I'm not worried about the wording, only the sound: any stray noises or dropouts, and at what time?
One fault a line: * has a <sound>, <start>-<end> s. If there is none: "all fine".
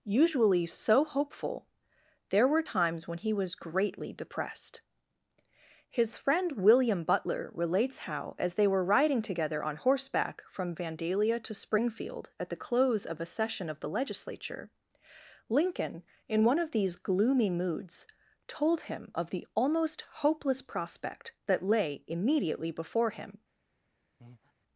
* has a breath, 24.2-24.5 s